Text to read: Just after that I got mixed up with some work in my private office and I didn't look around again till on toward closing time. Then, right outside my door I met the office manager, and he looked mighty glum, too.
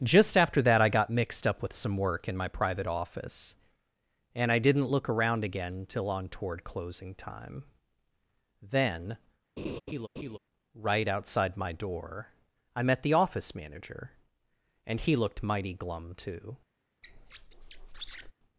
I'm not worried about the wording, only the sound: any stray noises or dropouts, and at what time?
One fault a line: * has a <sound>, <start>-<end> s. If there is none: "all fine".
* has a laugh, 9.6-10.4 s
* has a squeak, 17.0-18.3 s